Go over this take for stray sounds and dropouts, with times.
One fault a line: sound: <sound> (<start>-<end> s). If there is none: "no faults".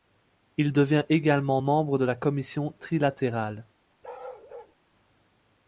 sound: bark (4.0-4.8 s)